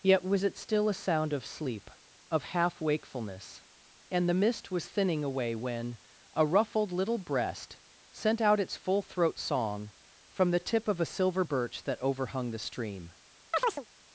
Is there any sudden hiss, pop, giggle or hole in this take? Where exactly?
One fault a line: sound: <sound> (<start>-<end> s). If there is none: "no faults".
sound: chirp (13.5-13.9 s)